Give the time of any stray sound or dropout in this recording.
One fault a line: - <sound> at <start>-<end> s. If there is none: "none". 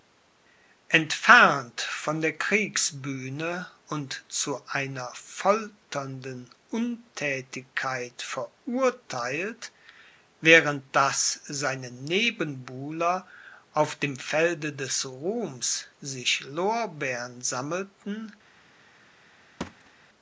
- thud at 19.6-19.9 s